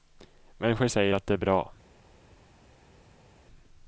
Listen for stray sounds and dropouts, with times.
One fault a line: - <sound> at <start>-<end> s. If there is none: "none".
none